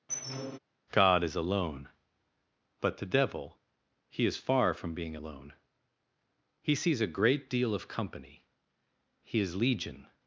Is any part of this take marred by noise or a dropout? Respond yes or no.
yes